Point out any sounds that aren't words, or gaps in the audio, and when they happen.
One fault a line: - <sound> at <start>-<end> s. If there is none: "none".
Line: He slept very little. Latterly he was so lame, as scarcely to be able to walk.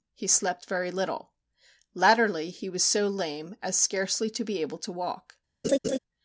- laugh at 5.6-6.0 s